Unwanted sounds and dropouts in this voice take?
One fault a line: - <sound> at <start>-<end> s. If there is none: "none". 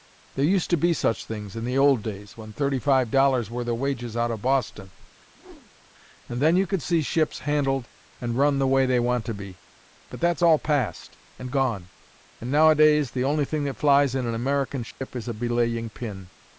- whoosh at 5.3-5.9 s
- dropout at 14.9-15.0 s